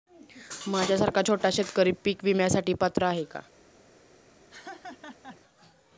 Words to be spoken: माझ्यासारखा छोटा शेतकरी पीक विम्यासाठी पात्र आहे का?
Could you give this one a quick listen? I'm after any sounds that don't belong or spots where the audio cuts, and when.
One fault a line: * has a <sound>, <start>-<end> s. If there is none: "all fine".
* has a laugh, 4.5-5.4 s